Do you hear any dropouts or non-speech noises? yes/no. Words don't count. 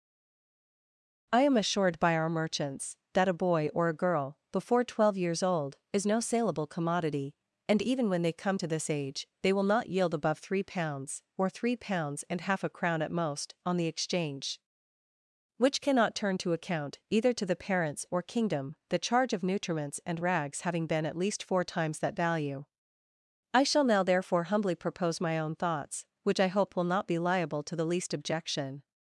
no